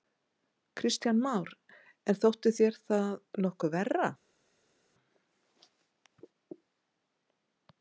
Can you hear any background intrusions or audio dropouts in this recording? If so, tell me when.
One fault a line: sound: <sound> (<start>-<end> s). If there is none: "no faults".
no faults